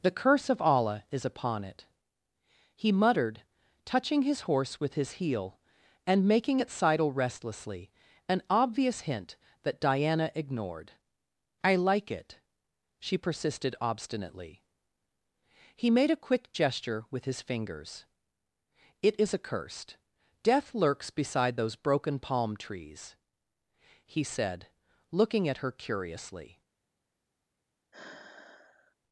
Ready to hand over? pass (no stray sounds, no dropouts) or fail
fail